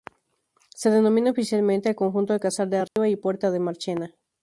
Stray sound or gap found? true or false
true